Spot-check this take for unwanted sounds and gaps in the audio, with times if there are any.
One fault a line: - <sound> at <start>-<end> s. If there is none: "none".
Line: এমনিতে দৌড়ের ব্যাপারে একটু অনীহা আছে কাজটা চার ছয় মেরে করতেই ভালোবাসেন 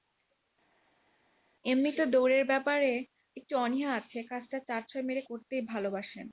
none